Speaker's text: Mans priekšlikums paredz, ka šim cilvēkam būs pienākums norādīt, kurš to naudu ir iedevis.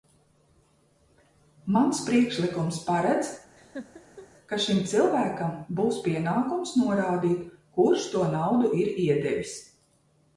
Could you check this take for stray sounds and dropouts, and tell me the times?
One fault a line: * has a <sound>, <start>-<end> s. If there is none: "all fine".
* has a laugh, 3.6-4.3 s